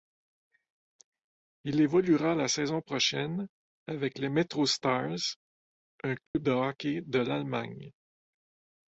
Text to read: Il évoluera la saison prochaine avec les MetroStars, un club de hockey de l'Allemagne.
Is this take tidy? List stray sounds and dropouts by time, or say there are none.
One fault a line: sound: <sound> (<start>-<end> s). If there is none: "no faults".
sound: dropout (6.3-6.4 s)